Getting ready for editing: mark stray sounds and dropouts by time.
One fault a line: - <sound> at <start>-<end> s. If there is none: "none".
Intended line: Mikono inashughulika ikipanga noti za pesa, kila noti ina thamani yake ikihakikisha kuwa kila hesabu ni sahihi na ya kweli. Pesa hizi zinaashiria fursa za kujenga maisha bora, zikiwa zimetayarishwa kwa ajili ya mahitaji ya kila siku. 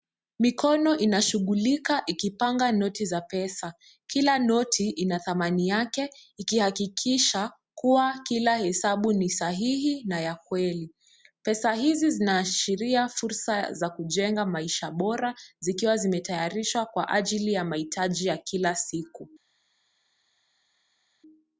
none